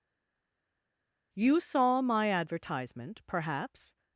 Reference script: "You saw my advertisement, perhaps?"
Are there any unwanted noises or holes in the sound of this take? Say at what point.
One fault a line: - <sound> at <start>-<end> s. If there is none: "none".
none